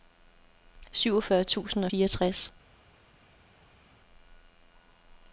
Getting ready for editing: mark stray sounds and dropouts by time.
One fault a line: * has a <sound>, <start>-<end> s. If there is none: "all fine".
all fine